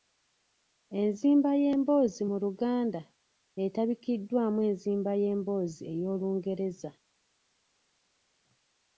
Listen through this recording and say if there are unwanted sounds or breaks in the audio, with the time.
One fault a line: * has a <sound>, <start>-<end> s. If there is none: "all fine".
all fine